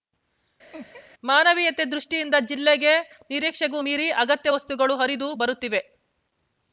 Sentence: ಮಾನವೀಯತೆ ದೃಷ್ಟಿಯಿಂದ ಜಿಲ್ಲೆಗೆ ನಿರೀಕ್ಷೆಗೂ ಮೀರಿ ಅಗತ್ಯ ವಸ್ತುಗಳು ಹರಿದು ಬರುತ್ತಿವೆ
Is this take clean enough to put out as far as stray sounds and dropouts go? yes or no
no